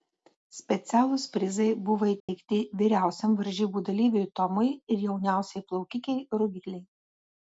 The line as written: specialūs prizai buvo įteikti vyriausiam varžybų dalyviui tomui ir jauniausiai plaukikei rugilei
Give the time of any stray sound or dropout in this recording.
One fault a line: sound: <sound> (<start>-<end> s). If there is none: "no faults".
sound: dropout (2.2-2.3 s)